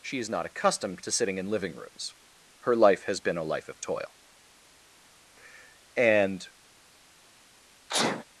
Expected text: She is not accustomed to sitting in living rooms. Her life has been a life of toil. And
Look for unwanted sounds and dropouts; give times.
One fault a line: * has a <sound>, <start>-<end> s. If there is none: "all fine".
* has a sneeze, 7.9-8.2 s